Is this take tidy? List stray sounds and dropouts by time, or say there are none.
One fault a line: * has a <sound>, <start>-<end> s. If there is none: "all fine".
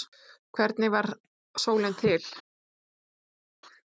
all fine